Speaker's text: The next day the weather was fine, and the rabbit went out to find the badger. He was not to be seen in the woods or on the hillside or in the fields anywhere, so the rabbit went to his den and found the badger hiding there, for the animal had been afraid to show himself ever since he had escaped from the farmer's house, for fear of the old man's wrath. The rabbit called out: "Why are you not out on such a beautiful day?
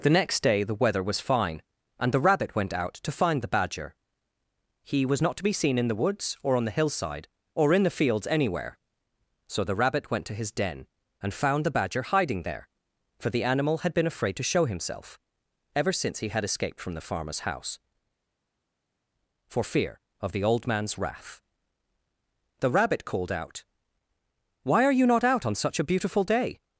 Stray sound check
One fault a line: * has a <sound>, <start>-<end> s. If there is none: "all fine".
all fine